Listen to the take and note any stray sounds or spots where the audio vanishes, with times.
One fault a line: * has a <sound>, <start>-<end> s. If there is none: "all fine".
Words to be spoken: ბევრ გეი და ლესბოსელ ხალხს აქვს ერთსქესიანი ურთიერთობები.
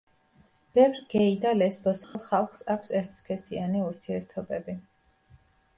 * has a dropout, 2.0-2.2 s